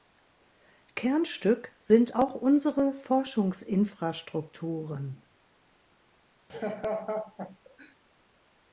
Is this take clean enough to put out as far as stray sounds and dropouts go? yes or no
no